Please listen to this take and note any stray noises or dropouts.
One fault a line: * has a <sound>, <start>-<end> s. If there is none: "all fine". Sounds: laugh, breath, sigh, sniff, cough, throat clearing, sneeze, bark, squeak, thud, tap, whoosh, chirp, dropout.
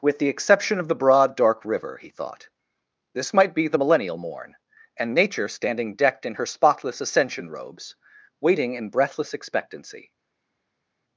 all fine